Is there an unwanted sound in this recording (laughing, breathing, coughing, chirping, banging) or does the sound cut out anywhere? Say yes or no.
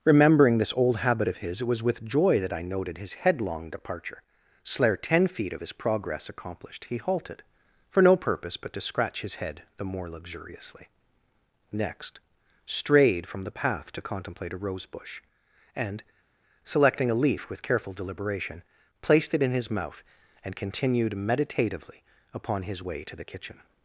no